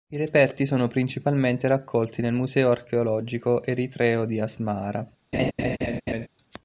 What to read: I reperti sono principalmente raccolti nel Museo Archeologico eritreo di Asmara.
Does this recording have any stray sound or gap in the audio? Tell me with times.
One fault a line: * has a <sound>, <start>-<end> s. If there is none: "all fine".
* has a laugh, 5.3-6.3 s